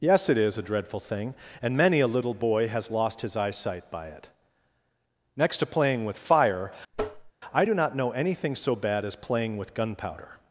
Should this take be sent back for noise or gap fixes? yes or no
yes